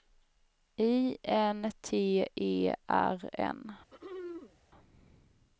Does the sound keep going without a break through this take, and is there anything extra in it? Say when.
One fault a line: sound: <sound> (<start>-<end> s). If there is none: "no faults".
sound: throat clearing (3.9-4.6 s)